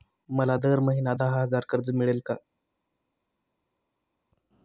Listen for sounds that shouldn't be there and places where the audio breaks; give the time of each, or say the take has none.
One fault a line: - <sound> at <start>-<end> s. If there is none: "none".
none